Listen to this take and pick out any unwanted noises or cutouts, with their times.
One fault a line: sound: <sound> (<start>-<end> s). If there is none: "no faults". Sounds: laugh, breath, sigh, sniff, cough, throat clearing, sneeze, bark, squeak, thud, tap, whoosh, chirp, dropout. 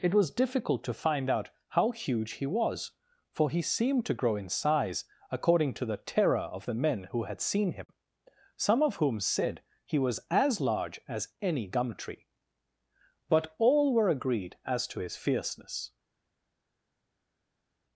no faults